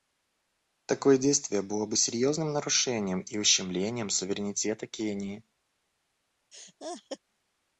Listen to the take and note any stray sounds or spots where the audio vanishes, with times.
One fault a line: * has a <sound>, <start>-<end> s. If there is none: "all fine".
* has a laugh, 6.5-7.2 s